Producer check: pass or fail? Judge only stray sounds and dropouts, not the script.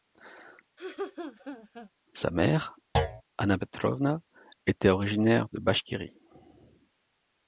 fail